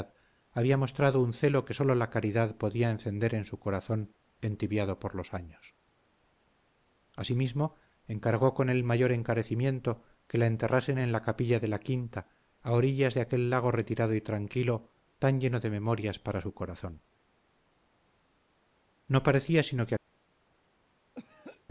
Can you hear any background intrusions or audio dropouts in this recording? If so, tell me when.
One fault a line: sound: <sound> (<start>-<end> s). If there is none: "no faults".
sound: throat clearing (21.1-21.6 s)